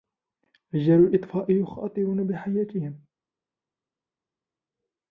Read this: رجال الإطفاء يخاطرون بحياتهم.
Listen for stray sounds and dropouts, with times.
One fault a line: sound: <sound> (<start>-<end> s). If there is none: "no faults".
no faults